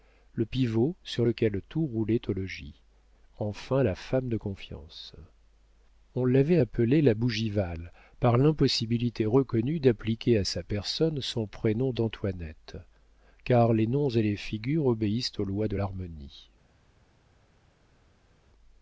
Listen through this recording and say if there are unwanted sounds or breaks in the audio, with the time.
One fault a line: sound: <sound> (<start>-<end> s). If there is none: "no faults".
no faults